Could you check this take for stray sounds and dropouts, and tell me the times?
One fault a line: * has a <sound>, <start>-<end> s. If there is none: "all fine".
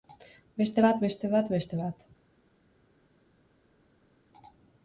all fine